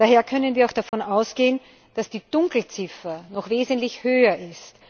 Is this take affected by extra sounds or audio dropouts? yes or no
yes